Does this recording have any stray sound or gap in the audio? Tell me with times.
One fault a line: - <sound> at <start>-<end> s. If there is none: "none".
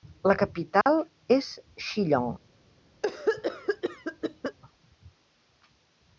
- dropout at 0.8-0.9 s
- cough at 3.0-4.6 s